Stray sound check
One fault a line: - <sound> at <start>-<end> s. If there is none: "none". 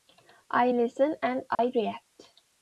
- dropout at 1.5-1.6 s